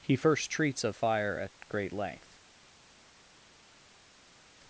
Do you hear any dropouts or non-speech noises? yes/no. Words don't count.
no